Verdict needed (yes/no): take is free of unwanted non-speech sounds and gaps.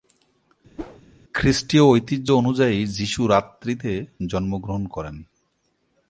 no